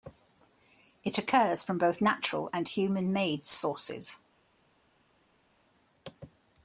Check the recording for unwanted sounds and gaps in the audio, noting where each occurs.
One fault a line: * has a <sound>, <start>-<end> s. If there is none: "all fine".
all fine